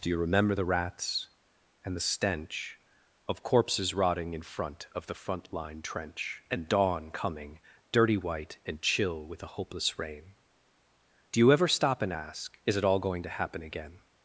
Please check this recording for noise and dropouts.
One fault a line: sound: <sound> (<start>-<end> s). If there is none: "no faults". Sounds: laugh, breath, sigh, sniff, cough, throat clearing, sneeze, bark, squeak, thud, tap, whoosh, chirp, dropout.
no faults